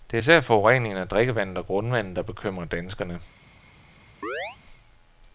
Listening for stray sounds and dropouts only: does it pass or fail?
fail